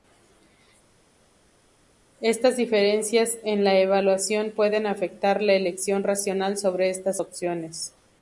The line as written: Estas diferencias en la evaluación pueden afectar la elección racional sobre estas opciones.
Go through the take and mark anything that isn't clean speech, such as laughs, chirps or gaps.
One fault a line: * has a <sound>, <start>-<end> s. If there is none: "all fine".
all fine